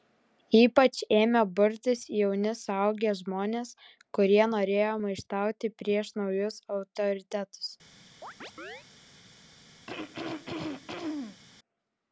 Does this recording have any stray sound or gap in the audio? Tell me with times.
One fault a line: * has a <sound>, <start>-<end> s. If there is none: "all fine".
* has a chirp, 8.2-8.8 s
* has a throat clearing, 9.9-11.4 s